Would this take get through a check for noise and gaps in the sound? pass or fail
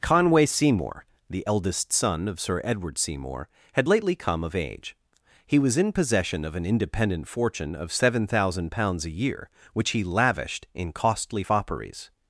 pass